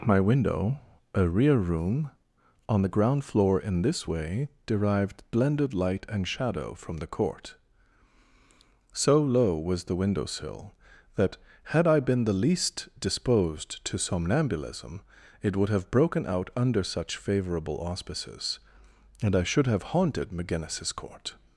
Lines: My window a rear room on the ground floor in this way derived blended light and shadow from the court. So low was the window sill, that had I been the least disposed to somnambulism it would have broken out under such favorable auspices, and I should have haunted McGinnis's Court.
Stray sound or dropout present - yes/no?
no